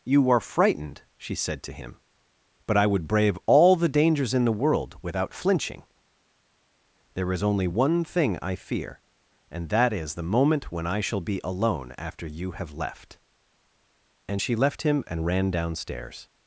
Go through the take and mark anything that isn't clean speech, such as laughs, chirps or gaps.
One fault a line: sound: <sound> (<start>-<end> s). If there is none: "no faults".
no faults